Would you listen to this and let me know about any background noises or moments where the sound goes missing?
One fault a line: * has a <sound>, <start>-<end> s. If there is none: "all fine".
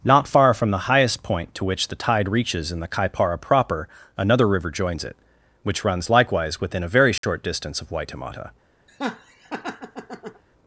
* has a dropout, 7.2-7.2 s
* has a laugh, 8.9-10.4 s